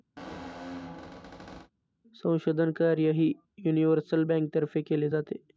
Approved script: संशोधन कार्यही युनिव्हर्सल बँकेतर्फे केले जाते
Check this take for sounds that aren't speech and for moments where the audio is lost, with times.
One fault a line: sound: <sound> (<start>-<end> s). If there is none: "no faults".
sound: squeak (0.2-1.7 s)